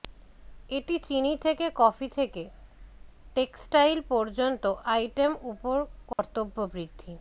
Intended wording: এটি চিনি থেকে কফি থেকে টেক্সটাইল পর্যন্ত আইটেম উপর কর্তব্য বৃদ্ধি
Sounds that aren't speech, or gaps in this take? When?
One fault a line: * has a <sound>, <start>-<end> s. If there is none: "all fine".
* has a dropout, 6.1-6.2 s